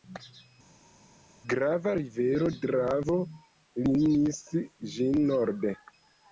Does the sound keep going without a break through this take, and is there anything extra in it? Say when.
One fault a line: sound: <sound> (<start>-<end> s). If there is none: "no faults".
no faults